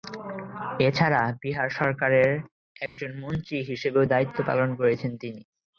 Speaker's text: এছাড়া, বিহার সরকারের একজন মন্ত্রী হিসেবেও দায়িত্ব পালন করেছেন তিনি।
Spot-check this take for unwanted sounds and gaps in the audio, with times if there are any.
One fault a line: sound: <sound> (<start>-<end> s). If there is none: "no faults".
sound: dropout (2.9-3.0 s)